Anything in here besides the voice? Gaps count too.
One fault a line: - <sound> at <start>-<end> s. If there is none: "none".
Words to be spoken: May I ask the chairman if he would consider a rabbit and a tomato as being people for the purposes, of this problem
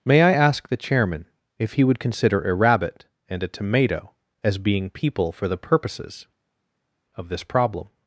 none